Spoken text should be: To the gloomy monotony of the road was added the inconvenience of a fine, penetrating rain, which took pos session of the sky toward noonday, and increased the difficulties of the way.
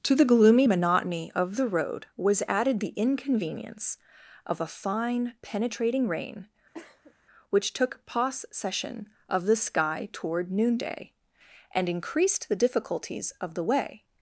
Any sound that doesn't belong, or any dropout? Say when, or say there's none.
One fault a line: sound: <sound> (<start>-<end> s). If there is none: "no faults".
sound: cough (6.7-7.1 s)